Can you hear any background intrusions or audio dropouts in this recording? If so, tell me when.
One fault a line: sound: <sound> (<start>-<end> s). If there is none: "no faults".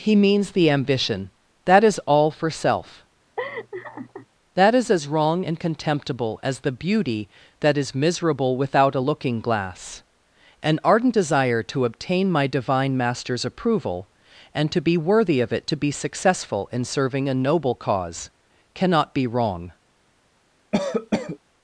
sound: laugh (3.4-4.3 s)
sound: cough (20.7-21.4 s)